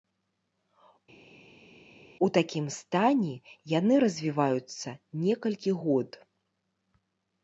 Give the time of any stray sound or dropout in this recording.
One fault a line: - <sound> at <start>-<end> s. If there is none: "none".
none